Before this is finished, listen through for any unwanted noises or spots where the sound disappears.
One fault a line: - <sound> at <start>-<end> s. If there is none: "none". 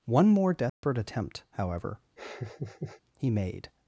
- dropout at 0.7-0.8 s
- laugh at 2.2-3.0 s